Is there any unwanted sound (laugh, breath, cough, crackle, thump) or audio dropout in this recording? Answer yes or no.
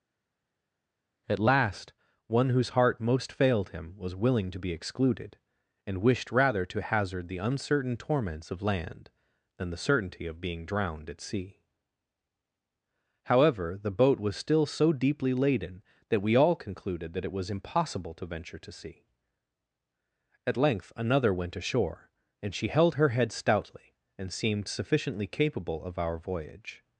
no